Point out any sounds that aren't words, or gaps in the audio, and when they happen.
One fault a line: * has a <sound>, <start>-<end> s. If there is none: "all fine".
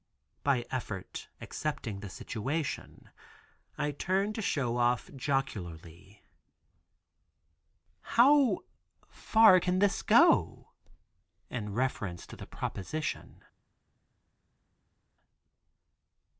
all fine